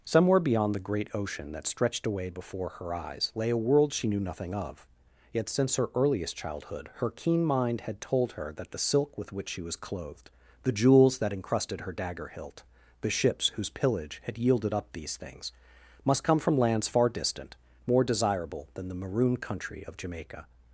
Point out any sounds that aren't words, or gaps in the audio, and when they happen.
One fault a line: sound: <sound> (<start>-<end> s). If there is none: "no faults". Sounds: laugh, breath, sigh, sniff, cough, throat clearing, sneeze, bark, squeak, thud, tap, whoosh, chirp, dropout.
no faults